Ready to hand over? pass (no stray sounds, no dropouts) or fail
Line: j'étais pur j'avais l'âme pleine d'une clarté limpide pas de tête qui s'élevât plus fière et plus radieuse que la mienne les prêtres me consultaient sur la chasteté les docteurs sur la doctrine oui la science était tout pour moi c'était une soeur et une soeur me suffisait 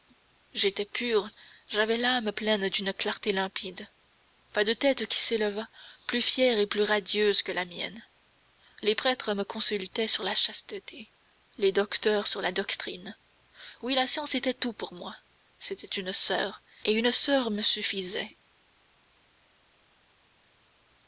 pass